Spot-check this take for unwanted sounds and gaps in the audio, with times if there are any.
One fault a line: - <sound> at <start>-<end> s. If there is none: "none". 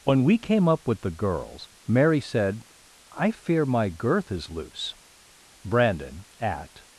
none